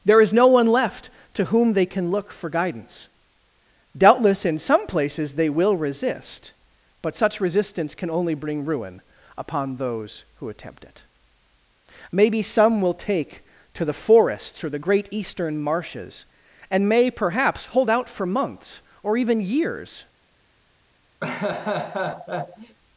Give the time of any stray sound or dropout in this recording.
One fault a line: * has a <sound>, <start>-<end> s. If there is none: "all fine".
* has a laugh, 21.2-22.8 s